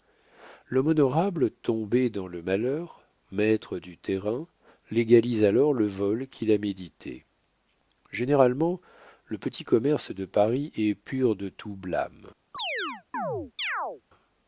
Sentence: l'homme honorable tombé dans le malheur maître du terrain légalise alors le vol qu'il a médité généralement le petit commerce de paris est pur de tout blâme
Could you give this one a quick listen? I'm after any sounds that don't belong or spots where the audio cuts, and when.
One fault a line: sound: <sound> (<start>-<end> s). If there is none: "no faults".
sound: chirp (12.5-14.0 s)